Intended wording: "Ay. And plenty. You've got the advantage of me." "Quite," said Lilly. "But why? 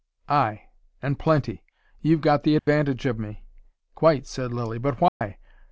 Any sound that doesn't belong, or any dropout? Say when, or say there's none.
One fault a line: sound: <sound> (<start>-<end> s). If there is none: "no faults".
sound: dropout (2.6-2.7 s)
sound: dropout (5.1-5.2 s)